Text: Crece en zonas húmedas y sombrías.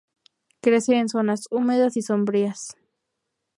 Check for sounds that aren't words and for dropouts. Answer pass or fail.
pass